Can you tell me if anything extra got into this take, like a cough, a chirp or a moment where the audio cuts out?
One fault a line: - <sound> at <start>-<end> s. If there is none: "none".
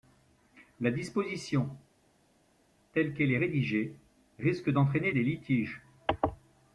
none